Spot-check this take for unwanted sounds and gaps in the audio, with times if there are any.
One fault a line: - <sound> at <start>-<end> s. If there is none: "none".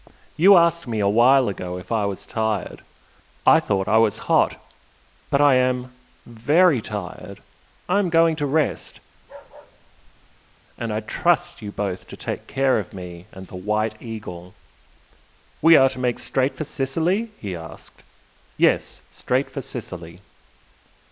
- bark at 9.1-10.6 s